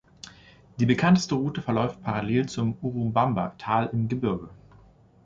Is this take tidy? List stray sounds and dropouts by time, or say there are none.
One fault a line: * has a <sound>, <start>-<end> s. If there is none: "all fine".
all fine